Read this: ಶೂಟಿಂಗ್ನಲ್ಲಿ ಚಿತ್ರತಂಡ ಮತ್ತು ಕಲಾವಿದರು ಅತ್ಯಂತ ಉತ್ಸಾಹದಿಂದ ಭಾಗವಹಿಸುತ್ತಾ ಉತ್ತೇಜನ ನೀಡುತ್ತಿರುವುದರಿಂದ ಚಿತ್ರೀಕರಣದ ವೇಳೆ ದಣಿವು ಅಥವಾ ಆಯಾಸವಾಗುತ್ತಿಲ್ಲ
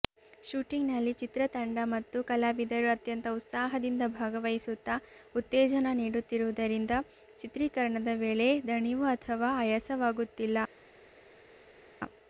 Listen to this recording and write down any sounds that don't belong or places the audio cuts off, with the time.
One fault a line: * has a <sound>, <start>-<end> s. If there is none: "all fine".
all fine